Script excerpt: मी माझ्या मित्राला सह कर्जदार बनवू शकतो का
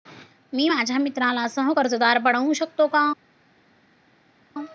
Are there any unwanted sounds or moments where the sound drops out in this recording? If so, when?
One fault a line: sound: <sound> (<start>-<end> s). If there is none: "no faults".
no faults